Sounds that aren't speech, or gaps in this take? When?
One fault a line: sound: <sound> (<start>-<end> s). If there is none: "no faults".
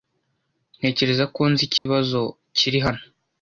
sound: dropout (1.8-1.9 s)